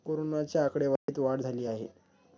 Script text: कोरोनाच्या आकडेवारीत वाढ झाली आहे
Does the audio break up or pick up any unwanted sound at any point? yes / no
yes